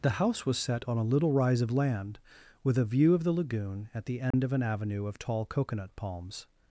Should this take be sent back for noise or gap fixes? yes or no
yes